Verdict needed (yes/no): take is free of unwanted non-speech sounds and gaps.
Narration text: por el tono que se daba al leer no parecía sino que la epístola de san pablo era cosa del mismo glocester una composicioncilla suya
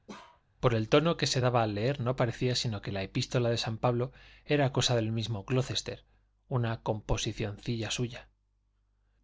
no